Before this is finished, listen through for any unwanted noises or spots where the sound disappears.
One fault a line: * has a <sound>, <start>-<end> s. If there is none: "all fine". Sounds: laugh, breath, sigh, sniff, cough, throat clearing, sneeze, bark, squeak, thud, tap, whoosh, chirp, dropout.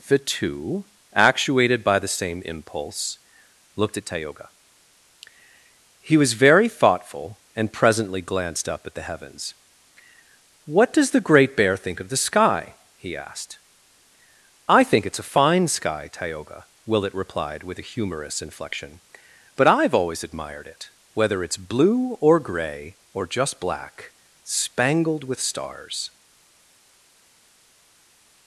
all fine